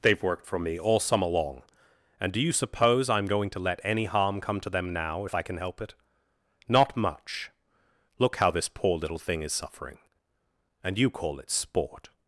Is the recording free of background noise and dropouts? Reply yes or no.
yes